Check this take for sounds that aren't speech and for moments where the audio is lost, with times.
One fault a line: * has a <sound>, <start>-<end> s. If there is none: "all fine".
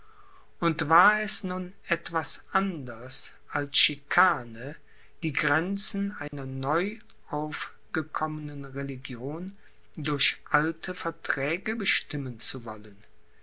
* has a dropout, 6.3-6.3 s